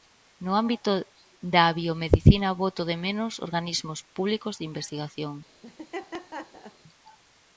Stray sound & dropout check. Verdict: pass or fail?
fail